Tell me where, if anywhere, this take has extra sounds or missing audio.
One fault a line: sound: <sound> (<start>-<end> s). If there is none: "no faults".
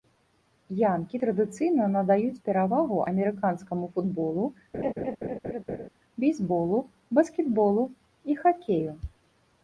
sound: laugh (4.7-5.9 s)